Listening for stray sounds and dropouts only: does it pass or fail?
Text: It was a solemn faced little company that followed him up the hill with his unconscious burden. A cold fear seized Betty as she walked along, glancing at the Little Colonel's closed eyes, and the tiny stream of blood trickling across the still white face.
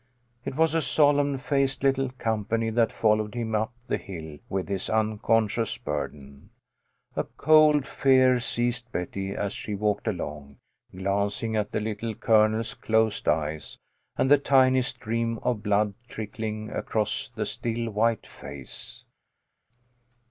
pass